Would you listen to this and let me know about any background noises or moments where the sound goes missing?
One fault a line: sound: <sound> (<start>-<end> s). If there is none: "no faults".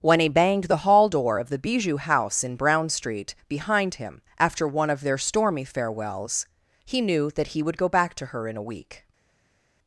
no faults